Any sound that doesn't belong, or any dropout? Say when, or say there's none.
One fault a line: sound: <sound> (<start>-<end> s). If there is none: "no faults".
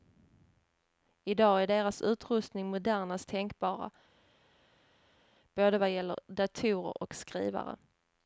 no faults